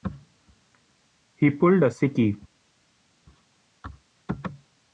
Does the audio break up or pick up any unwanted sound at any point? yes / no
no